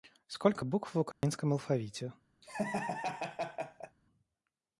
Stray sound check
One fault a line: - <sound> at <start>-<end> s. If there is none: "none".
- dropout at 1.1-1.2 s
- laugh at 2.4-4.0 s